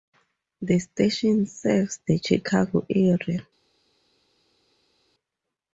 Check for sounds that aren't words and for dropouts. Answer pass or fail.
pass